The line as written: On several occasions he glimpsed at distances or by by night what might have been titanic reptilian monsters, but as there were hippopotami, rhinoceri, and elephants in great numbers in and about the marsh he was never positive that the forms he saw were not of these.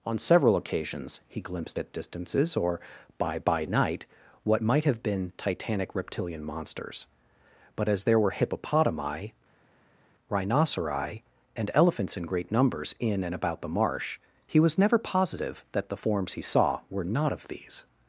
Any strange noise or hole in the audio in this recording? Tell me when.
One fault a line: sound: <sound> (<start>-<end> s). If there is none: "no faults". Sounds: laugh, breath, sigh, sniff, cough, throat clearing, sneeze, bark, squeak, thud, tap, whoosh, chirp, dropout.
no faults